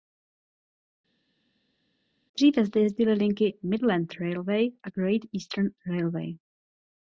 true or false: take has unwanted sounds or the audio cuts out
false